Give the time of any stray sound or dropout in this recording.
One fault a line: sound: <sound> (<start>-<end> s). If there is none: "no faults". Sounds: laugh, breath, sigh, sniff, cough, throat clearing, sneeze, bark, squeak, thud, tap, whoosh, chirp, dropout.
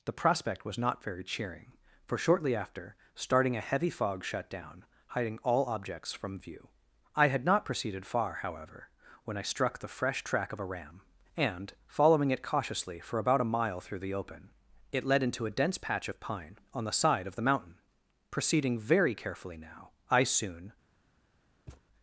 sound: thud (21.7-21.8 s)